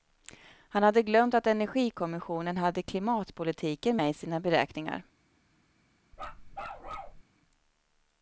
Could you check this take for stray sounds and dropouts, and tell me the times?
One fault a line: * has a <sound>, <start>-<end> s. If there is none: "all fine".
* has a bark, 6.1-7.2 s